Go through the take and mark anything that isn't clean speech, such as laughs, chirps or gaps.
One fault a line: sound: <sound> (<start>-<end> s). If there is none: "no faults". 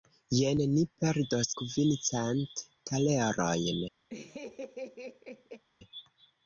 sound: laugh (4.1-5.6 s)